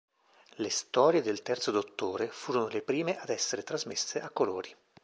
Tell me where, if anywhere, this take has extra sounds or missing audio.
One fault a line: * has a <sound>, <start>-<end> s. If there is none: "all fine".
all fine